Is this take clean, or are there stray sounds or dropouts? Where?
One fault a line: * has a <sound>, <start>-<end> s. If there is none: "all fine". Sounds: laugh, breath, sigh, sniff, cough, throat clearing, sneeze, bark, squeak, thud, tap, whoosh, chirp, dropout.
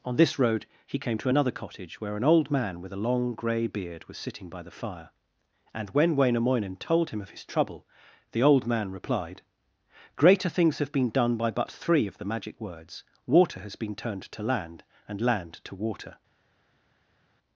all fine